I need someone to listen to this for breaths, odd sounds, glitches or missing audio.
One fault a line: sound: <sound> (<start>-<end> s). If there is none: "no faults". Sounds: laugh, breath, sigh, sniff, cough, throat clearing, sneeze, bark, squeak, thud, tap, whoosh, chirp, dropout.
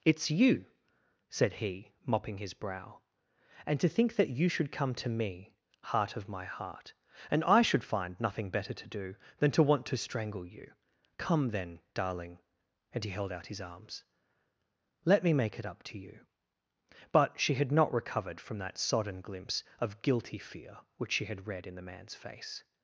no faults